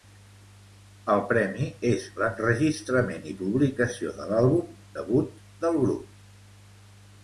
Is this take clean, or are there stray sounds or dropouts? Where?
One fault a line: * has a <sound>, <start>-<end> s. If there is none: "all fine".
all fine